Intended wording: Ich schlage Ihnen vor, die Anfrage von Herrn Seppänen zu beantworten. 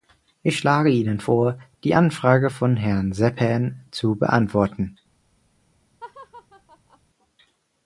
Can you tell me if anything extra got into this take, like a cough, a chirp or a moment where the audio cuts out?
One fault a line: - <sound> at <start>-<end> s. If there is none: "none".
- laugh at 6.0-7.0 s